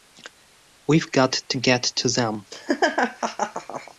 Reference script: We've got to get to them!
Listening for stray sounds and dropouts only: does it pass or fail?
fail